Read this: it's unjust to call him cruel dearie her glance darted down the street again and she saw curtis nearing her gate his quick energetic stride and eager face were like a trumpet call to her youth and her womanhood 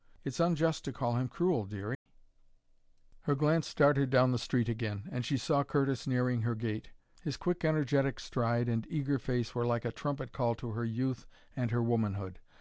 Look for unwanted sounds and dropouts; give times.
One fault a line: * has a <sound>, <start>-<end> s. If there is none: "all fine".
* has a dropout, 1.9-2.1 s